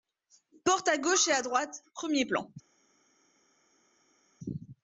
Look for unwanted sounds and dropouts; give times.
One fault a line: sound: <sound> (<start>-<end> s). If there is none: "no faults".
no faults